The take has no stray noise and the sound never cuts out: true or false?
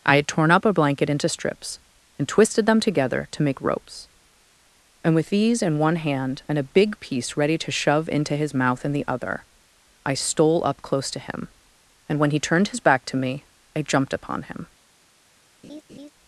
false